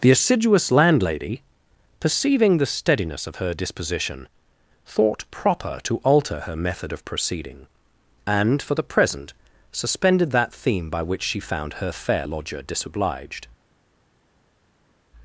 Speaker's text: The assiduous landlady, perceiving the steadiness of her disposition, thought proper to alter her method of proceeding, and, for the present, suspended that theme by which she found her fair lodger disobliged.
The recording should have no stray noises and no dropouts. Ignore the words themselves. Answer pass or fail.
pass